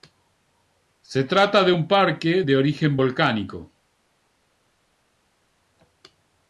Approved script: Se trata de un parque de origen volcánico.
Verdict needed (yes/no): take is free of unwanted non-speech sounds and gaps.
yes